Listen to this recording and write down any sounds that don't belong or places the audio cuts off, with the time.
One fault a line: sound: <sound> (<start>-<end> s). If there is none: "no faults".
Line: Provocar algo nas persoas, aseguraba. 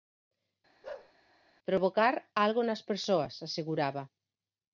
sound: bark (0.8-1.1 s)